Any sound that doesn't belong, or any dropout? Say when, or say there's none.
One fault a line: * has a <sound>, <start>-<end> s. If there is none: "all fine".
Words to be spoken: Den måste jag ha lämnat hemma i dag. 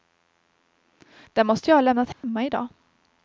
* has a dropout, 2.1-2.2 s